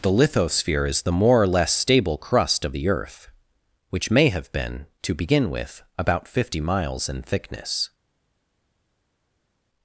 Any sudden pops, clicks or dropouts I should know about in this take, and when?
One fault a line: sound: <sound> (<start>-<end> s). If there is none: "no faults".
no faults